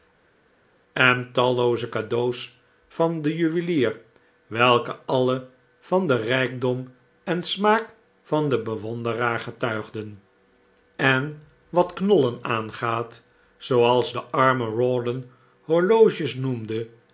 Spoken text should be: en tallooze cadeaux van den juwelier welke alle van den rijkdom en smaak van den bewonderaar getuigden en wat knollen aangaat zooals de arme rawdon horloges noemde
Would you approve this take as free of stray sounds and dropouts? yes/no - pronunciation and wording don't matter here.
yes